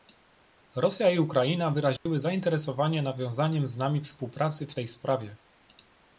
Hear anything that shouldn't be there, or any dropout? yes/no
yes